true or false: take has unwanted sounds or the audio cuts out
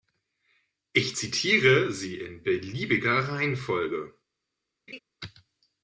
true